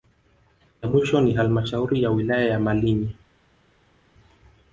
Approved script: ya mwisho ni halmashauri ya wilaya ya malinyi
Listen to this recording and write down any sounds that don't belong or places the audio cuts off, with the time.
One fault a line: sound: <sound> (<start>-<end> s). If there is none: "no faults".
no faults